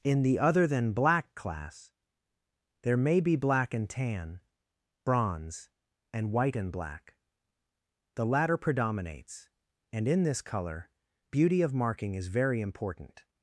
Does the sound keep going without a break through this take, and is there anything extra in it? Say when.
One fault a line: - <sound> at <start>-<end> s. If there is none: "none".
none